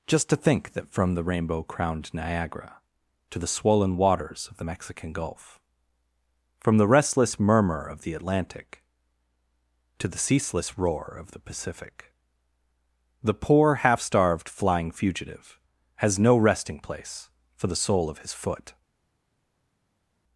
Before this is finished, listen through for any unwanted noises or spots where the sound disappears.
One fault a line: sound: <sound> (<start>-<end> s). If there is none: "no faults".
no faults